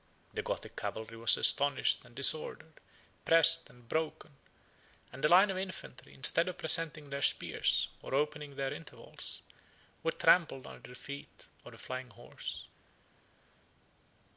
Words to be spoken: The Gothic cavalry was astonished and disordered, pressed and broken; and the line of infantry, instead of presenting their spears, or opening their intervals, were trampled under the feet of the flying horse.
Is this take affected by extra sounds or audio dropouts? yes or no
no